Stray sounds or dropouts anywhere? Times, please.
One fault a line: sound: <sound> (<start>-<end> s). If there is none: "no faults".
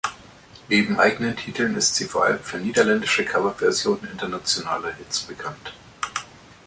no faults